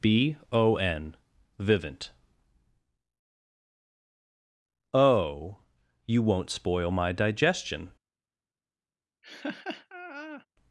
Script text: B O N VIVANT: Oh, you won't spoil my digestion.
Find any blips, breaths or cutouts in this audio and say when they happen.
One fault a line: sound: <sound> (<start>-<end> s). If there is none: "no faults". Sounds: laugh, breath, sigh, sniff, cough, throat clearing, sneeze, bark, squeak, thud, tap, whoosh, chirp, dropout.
sound: laugh (9.2-10.5 s)